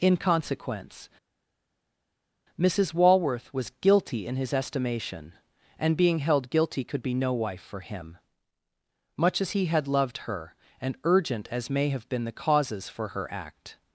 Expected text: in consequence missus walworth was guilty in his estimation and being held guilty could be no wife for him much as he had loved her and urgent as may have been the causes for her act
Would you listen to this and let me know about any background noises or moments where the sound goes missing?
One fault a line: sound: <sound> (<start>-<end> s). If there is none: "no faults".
no faults